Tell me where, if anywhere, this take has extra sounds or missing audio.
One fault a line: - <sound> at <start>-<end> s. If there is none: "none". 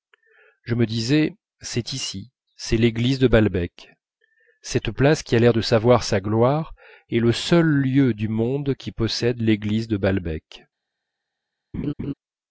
- laugh at 11.7-12.1 s